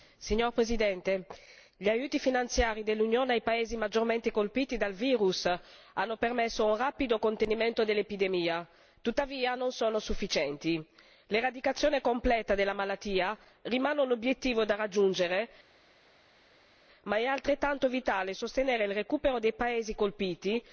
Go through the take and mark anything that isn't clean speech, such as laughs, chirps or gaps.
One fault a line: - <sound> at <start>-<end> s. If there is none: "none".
none